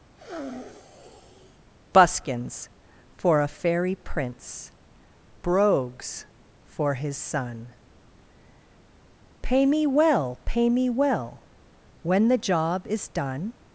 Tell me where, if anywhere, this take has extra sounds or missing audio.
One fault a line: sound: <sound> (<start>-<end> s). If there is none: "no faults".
sound: sniff (0.1-1.6 s)